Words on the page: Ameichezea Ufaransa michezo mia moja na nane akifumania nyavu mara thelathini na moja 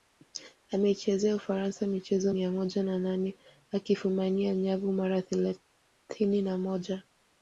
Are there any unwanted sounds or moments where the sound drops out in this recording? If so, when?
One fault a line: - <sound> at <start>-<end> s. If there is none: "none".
none